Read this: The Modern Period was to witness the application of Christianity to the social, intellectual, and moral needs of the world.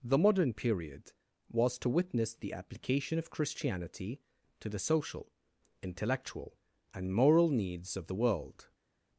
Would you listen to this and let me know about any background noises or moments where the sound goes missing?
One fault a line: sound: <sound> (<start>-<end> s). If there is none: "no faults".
no faults